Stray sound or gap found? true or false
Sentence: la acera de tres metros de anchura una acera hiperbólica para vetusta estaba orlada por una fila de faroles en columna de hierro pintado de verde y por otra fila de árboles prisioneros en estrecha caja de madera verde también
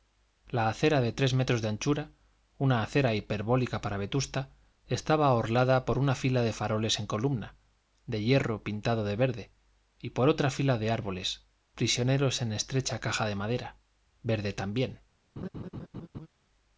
true